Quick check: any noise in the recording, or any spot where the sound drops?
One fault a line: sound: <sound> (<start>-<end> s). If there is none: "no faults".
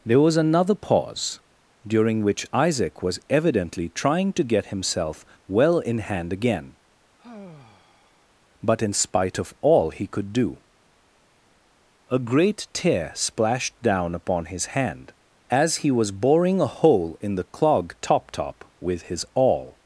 sound: sigh (7.2-8.3 s)